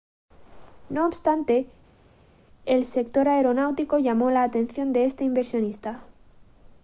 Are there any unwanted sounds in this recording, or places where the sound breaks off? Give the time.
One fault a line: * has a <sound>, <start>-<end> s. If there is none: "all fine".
all fine